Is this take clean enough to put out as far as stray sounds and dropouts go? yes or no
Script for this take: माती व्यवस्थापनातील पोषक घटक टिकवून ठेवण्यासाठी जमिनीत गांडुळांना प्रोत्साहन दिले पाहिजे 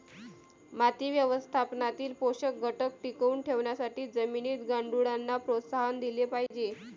no